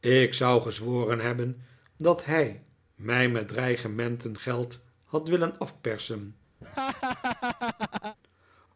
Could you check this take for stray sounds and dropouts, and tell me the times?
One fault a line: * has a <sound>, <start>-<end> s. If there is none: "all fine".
* has a laugh, 6.6-8.2 s